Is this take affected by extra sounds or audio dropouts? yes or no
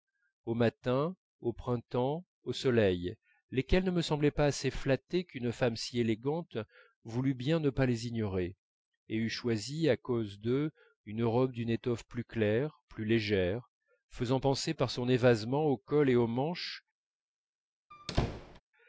yes